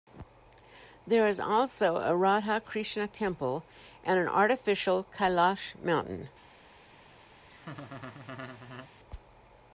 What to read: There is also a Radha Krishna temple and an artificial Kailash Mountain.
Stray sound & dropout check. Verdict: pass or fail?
fail